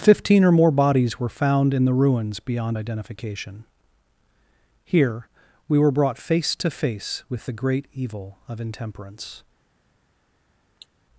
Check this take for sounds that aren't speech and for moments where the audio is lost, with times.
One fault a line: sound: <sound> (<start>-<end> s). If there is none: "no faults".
sound: cough (10.8-10.9 s)